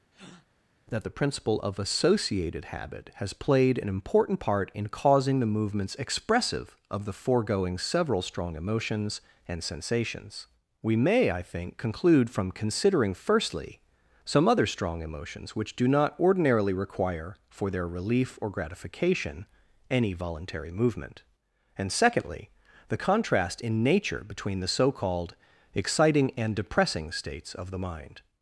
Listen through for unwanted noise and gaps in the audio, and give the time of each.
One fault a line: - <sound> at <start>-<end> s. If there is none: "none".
- breath at 0.1-0.5 s